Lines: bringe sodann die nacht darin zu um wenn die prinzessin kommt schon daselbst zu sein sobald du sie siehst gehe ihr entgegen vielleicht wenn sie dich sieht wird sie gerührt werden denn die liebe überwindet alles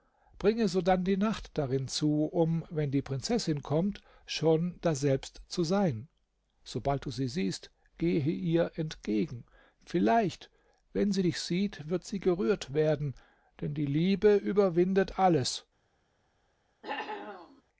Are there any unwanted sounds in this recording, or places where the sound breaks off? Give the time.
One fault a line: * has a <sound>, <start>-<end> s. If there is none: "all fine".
* has a cough, 16.8-17.6 s